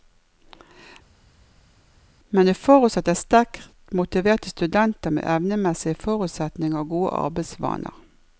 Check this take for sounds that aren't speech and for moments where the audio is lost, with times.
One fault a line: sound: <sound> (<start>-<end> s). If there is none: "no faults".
no faults